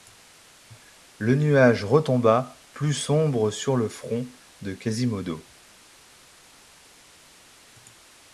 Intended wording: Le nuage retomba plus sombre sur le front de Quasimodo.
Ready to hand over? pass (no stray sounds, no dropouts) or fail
pass